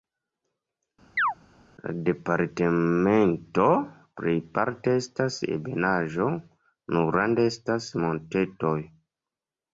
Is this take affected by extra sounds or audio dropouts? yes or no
yes